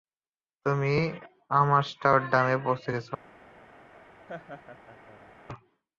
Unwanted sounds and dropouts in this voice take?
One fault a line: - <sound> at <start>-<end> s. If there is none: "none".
- laugh at 4.3-5.3 s